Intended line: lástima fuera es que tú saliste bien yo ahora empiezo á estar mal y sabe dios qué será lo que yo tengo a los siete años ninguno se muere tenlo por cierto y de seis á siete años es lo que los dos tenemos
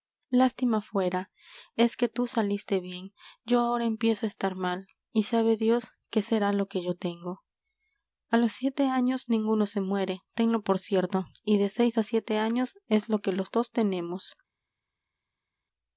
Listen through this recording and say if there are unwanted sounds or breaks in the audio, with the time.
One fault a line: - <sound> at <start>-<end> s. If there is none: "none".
none